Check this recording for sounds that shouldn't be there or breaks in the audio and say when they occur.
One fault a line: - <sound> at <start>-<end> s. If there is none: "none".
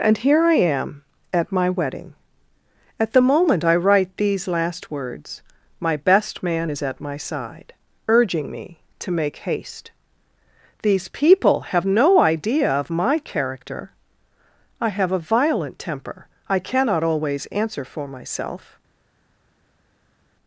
none